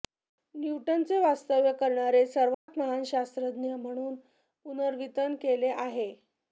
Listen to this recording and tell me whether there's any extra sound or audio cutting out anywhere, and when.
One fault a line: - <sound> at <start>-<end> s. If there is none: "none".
- dropout at 2.5-2.7 s